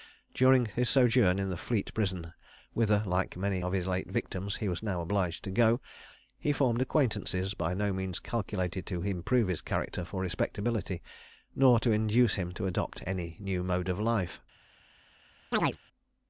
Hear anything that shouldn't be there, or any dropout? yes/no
yes